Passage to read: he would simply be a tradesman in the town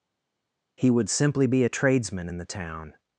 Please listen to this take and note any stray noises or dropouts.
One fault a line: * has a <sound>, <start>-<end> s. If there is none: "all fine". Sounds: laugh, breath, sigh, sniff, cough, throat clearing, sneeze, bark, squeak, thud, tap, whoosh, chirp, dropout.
all fine